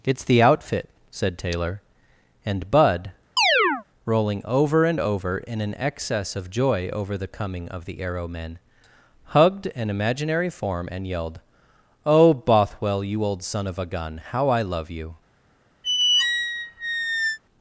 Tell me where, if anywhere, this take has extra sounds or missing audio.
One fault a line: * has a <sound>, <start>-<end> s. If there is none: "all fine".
* has a chirp, 3.4-3.8 s
* has a squeak, 15.8-17.4 s